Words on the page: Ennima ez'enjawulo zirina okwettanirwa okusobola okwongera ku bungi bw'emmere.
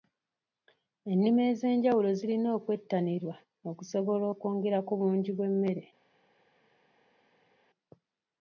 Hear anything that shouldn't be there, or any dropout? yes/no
no